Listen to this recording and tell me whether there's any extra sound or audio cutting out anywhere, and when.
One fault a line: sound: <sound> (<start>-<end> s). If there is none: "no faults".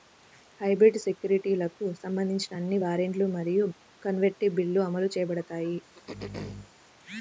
sound: throat clearing (5.9-6.7 s)